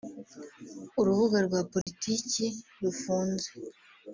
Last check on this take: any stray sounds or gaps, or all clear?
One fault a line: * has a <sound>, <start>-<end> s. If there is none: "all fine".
* has a dropout, 1.8-1.9 s